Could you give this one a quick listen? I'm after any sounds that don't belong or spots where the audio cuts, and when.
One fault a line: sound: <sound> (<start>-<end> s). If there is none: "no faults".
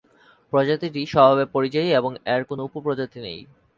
no faults